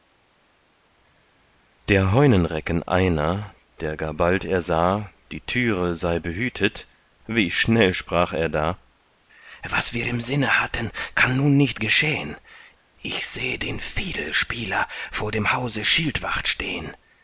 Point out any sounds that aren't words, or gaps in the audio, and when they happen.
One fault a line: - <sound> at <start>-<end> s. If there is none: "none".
none